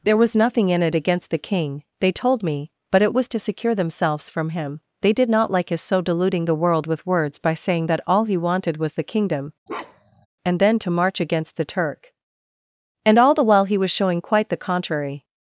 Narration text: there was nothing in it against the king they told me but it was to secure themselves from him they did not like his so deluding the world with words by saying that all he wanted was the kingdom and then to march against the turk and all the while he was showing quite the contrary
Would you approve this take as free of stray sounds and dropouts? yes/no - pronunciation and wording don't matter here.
no